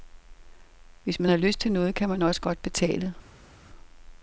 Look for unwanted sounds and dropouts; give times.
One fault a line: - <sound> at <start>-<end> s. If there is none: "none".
none